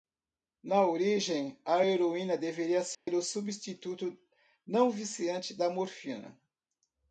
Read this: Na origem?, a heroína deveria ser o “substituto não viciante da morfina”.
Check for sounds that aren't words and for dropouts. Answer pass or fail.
fail